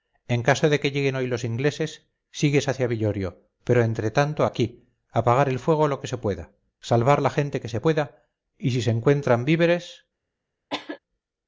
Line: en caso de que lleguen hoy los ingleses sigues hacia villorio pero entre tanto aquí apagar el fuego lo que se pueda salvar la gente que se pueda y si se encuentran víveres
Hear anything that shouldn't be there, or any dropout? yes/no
yes